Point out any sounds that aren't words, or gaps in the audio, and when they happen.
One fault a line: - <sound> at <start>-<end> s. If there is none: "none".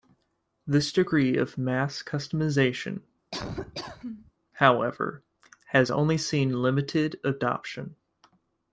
- laugh at 3.3-4.3 s